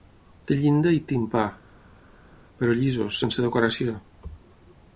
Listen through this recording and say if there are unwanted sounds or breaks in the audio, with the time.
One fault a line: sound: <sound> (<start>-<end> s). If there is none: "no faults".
no faults